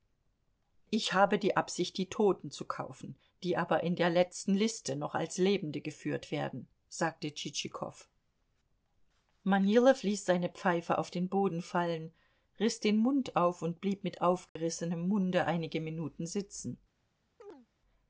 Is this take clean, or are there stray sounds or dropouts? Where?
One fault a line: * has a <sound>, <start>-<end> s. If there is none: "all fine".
* has a dropout, 14.5-14.6 s
* has a chirp, 17.4-17.7 s